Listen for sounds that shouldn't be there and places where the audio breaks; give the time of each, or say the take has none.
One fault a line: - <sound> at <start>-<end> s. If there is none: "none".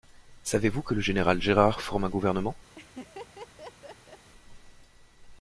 - laugh at 2.7-4.3 s